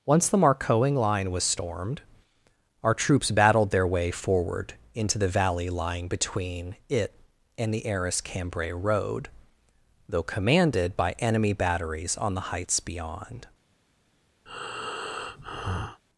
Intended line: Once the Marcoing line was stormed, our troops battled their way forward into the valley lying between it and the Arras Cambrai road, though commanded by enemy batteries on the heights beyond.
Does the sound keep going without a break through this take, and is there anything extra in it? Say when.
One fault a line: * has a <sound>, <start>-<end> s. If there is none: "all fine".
* has a breath, 14.5-16.0 s